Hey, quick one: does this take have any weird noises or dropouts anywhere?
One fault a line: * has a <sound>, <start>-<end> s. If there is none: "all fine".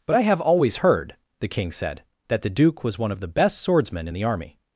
all fine